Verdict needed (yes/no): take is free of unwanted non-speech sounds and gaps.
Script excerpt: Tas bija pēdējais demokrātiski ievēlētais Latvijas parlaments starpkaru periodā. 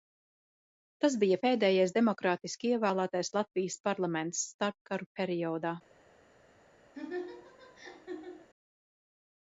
no